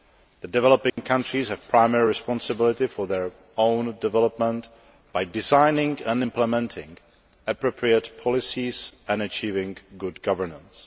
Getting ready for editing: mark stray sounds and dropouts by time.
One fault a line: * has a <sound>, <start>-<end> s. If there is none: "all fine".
* has a dropout, 0.9-1.0 s